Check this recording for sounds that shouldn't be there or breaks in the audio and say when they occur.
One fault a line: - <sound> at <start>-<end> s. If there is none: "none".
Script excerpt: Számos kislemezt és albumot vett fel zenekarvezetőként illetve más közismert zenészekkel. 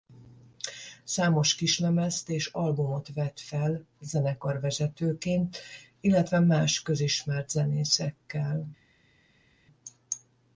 none